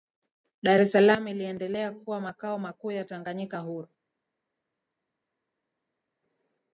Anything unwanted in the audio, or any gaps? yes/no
no